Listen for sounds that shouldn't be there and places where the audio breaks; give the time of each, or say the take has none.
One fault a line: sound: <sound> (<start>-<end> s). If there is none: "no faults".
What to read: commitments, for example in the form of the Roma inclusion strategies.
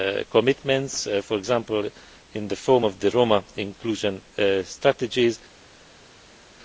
no faults